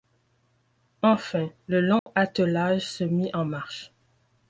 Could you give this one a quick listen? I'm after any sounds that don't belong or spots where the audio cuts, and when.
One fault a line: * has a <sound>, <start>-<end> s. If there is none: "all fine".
* has a dropout, 2.0-2.1 s